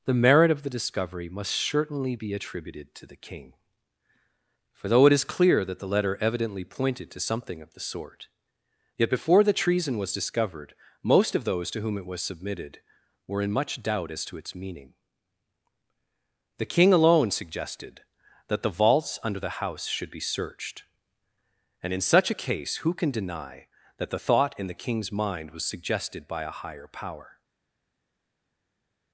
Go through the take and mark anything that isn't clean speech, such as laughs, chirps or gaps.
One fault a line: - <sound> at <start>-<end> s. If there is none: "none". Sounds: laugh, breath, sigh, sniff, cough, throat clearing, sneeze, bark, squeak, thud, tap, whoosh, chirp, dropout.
none